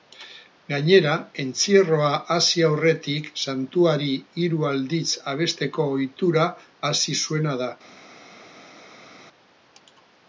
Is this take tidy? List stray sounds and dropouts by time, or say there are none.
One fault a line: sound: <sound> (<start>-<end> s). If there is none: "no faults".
no faults